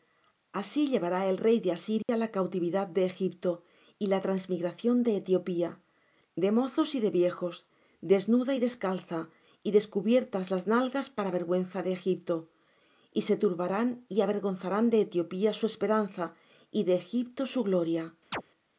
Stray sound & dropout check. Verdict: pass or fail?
fail